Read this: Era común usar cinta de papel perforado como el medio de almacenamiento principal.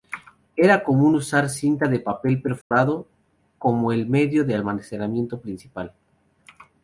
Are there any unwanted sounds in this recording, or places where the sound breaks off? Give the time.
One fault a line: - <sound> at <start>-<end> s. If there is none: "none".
- dropout at 2.6-2.7 s